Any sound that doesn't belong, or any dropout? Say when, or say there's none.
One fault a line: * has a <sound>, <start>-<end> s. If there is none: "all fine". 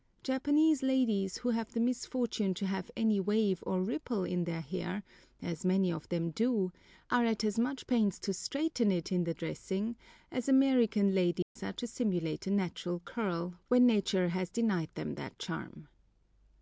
* has a dropout, 11.4-11.6 s